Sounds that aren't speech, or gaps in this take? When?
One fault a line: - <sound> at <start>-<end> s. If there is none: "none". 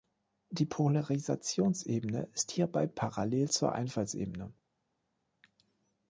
none